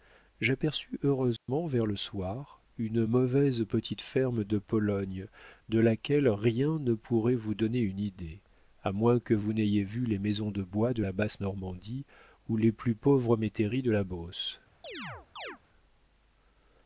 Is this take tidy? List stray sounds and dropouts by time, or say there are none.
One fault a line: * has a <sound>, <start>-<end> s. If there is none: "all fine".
* has a dropout, 1.4-1.5 s
* has a chirp, 14.8-15.6 s